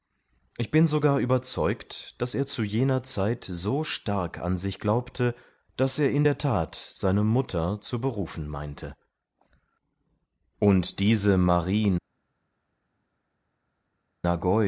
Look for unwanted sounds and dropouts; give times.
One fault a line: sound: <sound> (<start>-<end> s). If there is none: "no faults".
no faults